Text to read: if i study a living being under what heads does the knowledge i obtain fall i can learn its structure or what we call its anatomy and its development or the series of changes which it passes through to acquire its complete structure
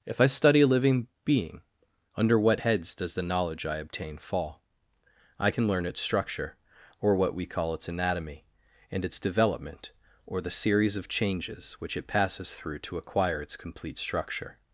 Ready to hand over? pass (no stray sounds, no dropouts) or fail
pass